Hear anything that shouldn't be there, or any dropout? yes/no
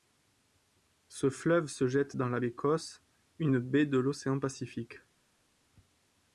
no